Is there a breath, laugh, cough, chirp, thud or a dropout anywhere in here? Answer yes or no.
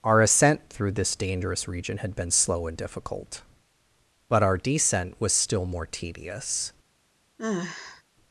yes